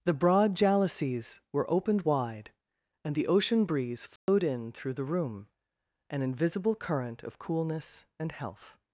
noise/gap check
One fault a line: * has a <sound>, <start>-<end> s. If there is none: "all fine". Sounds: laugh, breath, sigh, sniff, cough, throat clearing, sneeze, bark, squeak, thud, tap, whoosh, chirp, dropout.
* has a dropout, 4.2-4.3 s